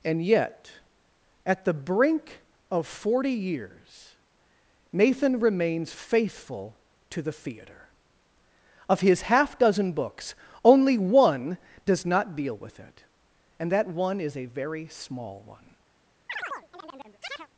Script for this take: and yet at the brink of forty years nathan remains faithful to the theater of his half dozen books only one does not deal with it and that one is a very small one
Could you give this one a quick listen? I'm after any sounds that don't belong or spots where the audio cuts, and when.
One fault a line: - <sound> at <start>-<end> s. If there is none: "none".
- chirp at 16.3-17.5 s